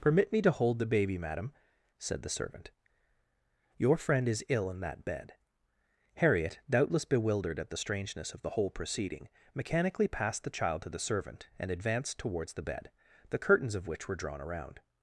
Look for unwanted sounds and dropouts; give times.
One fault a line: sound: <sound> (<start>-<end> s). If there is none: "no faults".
no faults